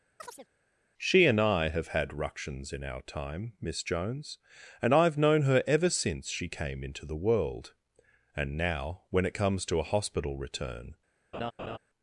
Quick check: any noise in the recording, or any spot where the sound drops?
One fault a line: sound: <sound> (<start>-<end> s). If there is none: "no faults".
sound: chirp (0.2-0.5 s)
sound: laugh (11.3-11.8 s)